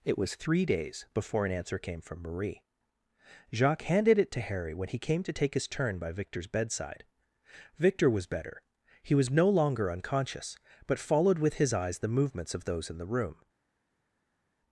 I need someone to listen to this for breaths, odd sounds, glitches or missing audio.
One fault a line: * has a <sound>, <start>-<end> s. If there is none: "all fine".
all fine